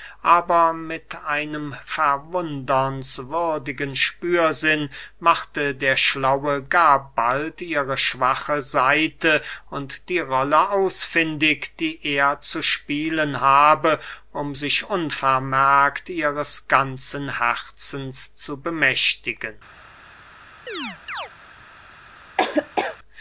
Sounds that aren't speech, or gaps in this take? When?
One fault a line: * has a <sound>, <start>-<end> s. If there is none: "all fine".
* has a chirp, 20.7-21.3 s
* has a laugh, 22.4-23.0 s